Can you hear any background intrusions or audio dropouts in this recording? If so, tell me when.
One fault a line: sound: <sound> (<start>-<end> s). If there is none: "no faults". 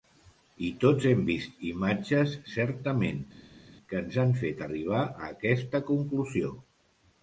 no faults